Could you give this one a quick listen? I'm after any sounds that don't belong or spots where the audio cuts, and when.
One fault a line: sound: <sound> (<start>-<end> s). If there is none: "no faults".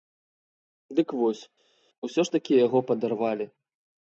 no faults